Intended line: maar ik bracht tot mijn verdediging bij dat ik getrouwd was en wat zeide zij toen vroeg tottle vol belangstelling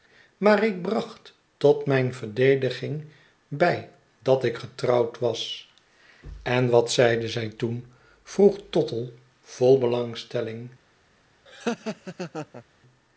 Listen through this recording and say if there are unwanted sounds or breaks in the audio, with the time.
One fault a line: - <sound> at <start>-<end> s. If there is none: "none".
- laugh at 11.5-12.6 s